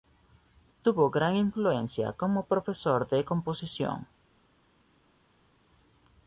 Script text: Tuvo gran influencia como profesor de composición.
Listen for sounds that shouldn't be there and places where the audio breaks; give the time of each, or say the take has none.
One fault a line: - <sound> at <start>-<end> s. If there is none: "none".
none